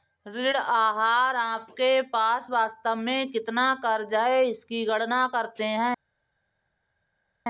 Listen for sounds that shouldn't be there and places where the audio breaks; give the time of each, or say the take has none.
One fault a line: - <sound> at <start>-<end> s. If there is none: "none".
none